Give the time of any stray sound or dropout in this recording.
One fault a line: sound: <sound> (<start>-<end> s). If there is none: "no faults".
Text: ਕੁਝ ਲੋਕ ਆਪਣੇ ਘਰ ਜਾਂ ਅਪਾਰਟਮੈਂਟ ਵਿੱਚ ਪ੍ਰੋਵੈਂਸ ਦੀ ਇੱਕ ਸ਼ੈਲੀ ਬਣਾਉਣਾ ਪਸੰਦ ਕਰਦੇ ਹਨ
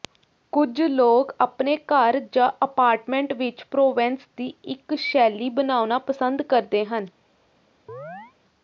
sound: chirp (7.9-8.3 s)